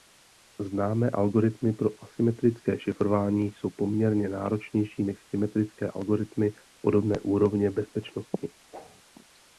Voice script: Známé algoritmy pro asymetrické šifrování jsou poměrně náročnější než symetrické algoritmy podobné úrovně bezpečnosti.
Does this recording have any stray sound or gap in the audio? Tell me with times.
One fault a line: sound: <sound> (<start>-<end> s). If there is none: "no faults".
sound: whoosh (8.7-9.0 s)